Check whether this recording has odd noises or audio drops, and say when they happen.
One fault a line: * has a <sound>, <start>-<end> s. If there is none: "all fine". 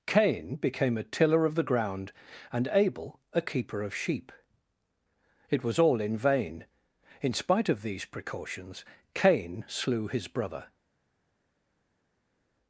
all fine